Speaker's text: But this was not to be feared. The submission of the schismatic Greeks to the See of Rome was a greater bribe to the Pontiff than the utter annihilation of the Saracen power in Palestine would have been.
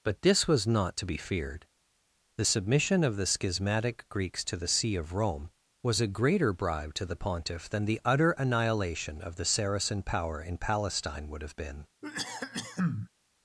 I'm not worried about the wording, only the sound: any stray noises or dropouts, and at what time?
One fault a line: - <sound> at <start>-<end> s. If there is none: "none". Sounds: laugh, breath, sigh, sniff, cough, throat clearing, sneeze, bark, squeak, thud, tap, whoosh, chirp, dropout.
- cough at 12.0-13.1 s